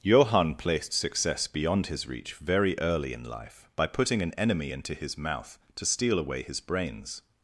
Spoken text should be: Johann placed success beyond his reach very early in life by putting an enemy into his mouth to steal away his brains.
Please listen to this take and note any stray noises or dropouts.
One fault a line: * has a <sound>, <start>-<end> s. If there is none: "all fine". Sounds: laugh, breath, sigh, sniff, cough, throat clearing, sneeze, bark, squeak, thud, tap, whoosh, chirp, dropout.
all fine